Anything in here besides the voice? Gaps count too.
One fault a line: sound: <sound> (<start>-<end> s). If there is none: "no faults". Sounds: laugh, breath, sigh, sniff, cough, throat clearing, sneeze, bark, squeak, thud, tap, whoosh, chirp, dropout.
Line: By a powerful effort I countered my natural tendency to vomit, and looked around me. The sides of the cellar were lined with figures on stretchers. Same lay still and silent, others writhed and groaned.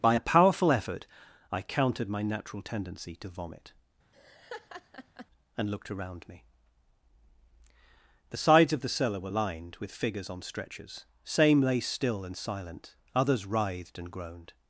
sound: laugh (4.1-5.3 s)